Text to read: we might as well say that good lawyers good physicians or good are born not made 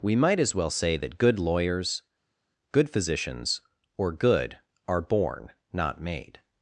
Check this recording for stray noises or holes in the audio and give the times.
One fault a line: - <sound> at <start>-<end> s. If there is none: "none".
none